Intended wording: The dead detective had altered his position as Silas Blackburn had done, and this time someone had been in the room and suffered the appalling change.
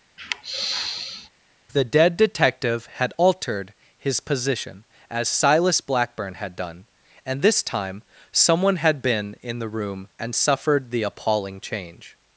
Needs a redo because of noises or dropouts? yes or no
yes